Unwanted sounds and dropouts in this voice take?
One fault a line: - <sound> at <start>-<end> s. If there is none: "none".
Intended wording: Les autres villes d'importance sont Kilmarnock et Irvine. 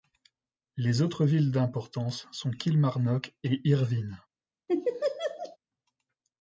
- laugh at 4.7-5.6 s